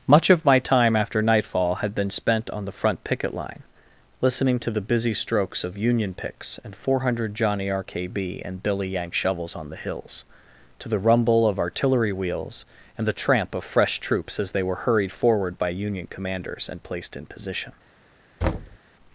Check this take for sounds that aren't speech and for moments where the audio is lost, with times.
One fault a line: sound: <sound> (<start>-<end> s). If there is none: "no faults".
sound: thud (18.4-18.8 s)